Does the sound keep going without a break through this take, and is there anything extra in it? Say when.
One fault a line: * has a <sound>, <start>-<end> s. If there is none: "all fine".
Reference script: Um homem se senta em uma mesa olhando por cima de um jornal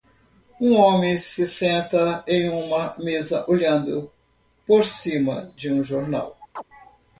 * has a chirp, 6.6-6.6 s